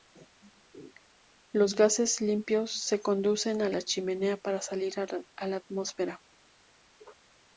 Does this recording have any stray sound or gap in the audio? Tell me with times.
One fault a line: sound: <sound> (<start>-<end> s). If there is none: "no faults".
no faults